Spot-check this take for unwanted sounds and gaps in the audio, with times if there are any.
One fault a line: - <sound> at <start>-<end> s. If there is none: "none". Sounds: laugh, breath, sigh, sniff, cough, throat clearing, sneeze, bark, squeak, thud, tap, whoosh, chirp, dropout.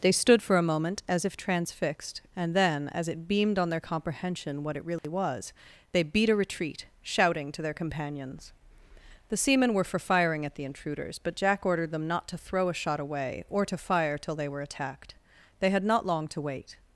- dropout at 5.0-5.0 s